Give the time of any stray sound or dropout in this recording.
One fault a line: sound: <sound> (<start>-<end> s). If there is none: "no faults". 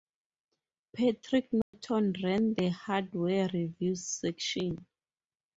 sound: dropout (1.6-1.7 s)